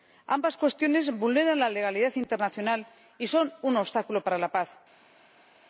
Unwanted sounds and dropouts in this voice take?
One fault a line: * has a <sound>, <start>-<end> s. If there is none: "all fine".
all fine